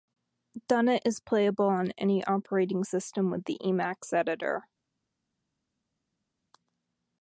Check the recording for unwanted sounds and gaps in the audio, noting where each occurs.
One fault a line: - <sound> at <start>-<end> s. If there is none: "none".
none